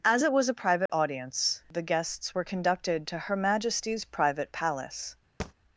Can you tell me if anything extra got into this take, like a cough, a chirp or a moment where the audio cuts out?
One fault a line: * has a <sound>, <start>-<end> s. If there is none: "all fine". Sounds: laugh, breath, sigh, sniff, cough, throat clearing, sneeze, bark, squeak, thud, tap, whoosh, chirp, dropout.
* has a dropout, 0.9-0.9 s
* has a thud, 5.4-5.5 s